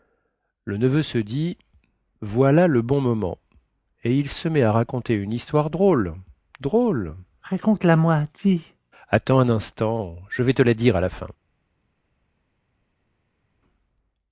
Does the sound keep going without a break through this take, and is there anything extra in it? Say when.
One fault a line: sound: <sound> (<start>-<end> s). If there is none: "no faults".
no faults